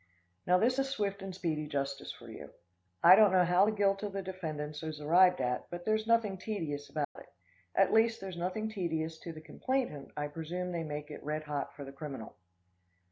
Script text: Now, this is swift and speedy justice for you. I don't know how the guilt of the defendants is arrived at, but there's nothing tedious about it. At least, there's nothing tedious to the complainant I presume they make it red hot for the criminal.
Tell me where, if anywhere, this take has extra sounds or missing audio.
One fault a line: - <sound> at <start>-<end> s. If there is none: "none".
- dropout at 7.0-7.2 s